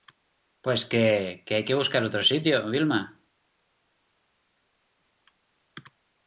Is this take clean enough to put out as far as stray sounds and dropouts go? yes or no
yes